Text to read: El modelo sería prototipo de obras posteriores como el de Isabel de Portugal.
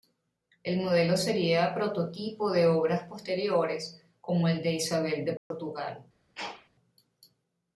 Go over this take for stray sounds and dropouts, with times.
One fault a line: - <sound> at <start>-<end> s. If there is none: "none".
- dropout at 5.4-5.5 s
- sneeze at 6.3-6.7 s